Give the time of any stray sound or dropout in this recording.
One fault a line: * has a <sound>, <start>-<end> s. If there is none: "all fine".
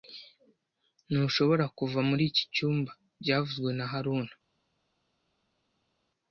all fine